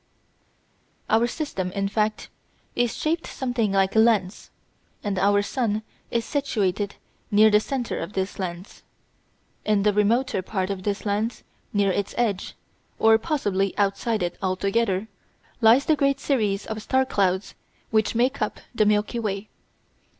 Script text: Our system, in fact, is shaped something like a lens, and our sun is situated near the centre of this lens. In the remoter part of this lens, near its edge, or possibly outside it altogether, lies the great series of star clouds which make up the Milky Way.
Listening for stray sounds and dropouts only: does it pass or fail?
pass